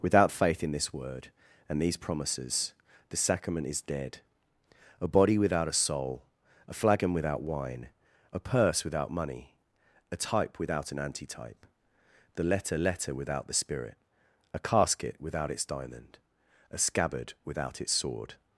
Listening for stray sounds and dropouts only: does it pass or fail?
pass